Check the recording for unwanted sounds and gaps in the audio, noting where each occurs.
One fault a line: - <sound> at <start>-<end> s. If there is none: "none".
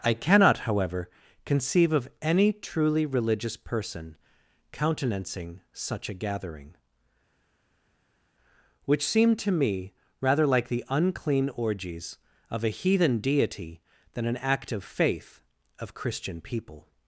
none